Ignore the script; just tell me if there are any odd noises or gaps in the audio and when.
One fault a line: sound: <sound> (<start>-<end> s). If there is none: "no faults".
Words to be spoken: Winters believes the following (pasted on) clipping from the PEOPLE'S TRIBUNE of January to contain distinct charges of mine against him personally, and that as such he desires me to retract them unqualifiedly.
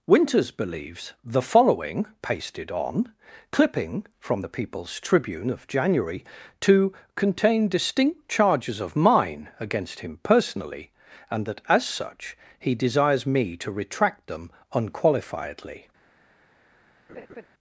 sound: laugh (17.1-17.5 s)